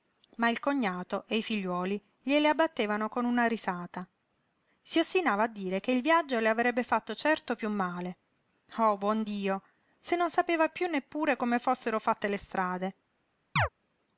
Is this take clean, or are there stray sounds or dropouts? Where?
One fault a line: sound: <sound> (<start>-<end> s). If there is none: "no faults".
sound: chirp (13.6-13.7 s)